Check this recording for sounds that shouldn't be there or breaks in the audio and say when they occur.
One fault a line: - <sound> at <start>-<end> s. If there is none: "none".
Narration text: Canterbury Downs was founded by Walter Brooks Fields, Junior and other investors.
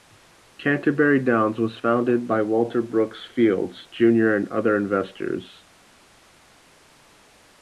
none